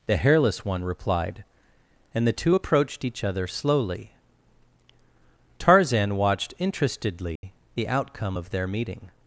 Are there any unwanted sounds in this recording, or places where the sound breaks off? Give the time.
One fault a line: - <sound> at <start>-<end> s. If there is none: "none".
- dropout at 7.4-7.4 s